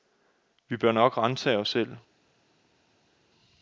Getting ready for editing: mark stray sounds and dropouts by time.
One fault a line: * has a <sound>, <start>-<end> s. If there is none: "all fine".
all fine